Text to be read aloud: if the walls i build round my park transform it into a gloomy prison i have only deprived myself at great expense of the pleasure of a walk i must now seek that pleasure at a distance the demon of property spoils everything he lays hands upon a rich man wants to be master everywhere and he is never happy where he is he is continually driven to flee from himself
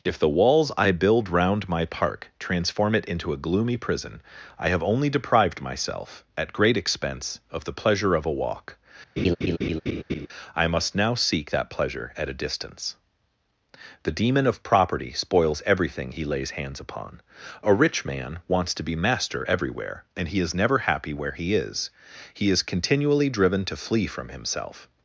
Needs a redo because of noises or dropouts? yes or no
yes